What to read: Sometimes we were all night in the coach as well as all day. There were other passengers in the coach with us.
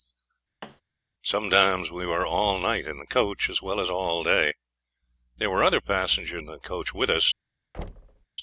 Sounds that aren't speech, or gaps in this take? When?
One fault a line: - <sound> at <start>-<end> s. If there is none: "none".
- thud at 0.6-0.8 s
- thud at 7.7-8.3 s